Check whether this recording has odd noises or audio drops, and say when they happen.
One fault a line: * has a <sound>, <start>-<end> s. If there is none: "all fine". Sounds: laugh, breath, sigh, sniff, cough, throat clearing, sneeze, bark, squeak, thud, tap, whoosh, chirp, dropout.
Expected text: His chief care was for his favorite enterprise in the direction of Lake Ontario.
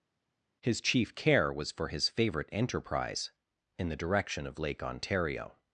all fine